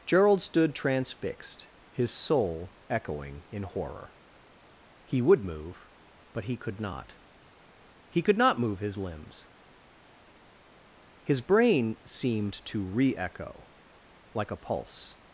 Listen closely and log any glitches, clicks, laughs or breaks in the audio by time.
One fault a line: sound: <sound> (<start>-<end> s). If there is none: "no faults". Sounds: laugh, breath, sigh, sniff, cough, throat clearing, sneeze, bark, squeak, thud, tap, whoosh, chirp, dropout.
no faults